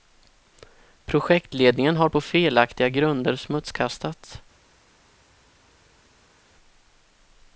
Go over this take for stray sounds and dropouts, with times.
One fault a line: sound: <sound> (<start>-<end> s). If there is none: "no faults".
no faults